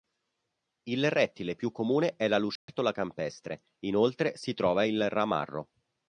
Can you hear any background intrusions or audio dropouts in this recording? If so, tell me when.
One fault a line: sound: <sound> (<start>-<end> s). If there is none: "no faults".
sound: dropout (2.6-2.7 s)